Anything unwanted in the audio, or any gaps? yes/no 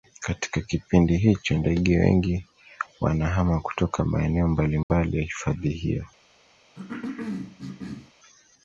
yes